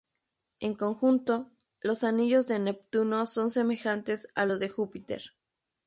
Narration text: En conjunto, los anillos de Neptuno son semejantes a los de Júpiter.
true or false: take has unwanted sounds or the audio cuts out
false